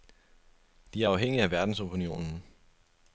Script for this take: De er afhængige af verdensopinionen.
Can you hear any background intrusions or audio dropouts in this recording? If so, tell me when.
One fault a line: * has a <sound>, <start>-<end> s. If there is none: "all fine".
all fine